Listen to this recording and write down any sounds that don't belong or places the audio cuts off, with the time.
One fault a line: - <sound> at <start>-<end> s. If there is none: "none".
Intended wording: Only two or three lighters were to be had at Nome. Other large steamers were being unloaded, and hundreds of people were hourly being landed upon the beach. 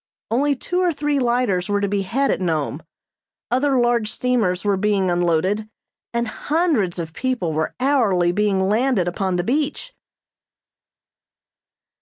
none